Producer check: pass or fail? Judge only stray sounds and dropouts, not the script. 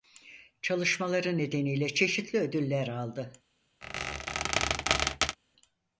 fail